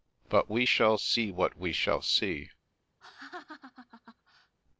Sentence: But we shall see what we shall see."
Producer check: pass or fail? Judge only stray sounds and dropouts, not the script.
fail